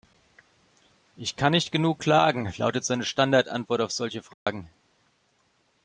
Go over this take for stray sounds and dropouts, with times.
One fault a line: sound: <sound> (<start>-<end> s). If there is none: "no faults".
sound: dropout (4.3-4.5 s)